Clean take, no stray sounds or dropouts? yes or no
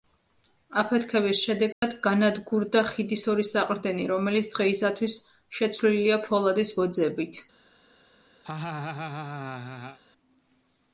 no